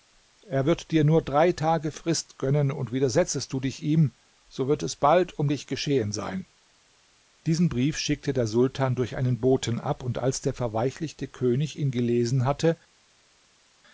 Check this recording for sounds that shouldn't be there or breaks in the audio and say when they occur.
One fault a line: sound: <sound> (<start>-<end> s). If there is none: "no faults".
no faults